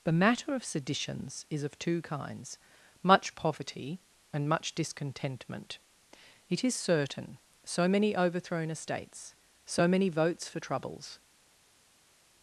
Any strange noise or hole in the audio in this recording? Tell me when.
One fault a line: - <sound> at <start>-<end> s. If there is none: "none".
none